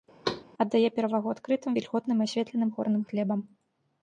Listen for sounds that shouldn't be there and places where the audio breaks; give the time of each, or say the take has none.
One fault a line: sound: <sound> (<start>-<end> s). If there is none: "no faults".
sound: thud (0.2-0.4 s)